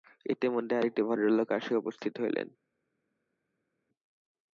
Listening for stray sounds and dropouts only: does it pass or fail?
pass